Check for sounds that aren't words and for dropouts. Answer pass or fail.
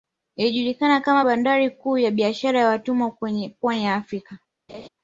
fail